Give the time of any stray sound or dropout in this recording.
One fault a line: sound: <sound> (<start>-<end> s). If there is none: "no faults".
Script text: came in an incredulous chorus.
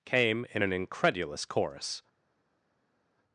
no faults